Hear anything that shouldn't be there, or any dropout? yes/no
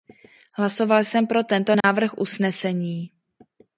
yes